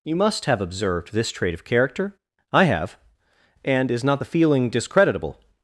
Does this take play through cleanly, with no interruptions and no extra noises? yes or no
yes